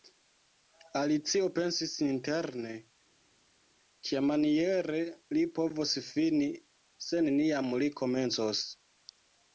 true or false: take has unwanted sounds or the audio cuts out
false